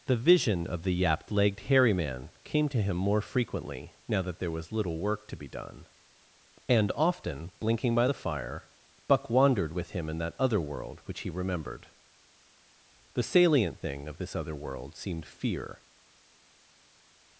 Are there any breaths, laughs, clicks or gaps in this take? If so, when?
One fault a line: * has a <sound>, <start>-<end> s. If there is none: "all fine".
all fine